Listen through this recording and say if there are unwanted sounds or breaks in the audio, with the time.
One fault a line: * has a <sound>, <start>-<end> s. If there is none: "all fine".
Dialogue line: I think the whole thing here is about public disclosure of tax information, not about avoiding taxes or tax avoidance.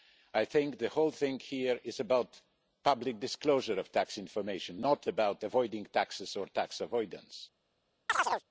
* has a chirp, 8.1-8.4 s